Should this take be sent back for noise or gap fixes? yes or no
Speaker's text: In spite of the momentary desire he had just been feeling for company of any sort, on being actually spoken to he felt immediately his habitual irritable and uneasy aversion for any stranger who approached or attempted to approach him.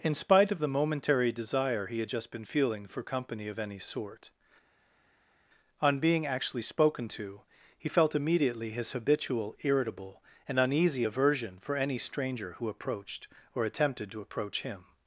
no